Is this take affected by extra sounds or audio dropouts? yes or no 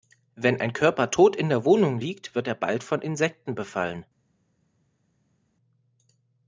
no